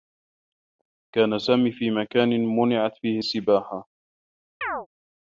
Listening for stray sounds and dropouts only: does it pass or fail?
fail